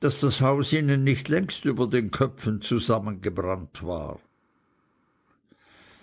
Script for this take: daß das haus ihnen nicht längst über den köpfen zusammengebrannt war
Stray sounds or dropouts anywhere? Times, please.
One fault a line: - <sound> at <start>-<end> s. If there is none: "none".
none